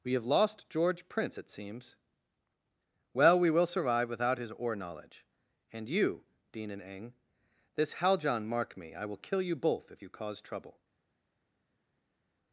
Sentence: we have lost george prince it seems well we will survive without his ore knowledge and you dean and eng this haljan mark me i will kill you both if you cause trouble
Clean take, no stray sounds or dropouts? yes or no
yes